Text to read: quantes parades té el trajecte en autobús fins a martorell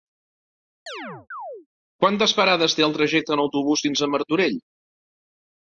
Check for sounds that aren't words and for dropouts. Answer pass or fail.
fail